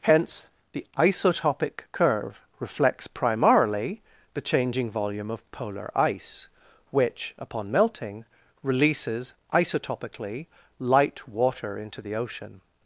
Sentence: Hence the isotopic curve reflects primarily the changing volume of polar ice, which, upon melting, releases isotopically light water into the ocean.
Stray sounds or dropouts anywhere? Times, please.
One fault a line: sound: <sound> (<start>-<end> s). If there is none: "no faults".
no faults